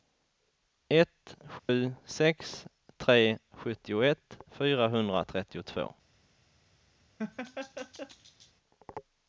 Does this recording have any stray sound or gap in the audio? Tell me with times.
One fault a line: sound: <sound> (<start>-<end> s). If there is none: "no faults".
sound: dropout (1.6-1.7 s)
sound: laugh (7.2-8.5 s)